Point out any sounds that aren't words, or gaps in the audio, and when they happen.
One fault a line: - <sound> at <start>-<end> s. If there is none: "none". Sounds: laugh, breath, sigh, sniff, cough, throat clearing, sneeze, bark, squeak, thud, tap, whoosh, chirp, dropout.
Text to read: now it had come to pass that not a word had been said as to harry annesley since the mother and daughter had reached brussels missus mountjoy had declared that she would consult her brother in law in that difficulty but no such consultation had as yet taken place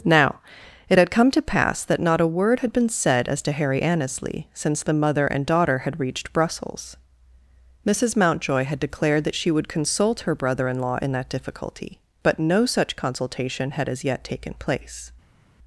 none